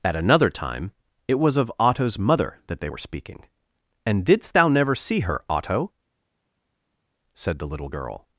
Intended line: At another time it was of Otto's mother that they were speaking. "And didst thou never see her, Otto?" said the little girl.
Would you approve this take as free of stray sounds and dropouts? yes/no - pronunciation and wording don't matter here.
yes